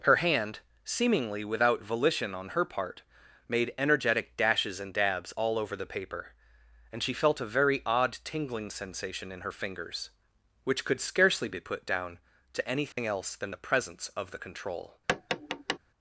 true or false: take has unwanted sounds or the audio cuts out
true